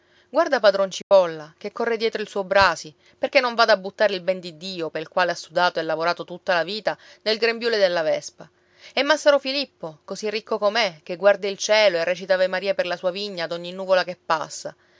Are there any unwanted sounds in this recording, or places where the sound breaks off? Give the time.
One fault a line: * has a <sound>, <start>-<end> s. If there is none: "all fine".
* has a dropout, 1.0-1.1 s